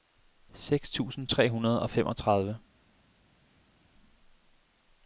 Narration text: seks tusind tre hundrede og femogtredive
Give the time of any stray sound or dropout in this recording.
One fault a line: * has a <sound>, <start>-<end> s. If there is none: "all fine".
all fine